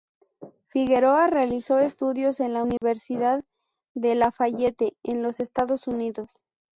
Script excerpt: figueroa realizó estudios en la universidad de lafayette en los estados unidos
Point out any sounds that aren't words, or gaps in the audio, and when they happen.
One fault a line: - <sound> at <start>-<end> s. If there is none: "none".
- dropout at 2.8-2.8 s